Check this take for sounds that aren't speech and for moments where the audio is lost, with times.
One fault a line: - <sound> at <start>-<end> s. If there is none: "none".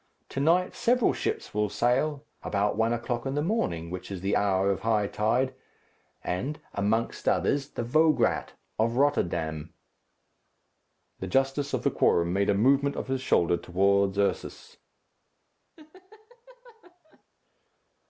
- laugh at 15.8-17.2 s